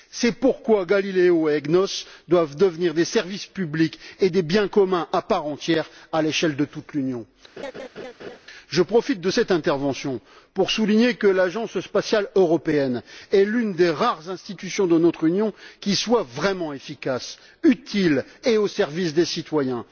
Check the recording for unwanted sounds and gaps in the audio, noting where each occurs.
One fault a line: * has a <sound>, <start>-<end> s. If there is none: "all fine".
* has a laugh, 7.6-8.4 s